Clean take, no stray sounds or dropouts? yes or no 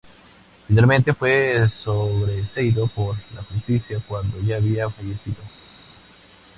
yes